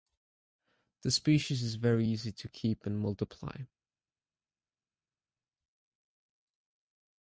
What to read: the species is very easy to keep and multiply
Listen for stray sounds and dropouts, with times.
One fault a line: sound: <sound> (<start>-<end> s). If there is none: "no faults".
no faults